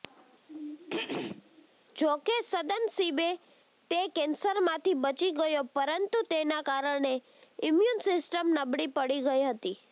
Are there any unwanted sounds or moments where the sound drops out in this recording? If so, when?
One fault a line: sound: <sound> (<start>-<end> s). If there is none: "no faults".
sound: throat clearing (0.5-1.7 s)